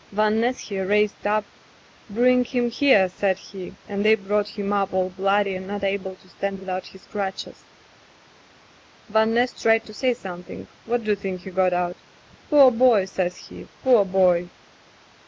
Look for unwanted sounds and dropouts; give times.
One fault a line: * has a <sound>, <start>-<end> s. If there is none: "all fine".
all fine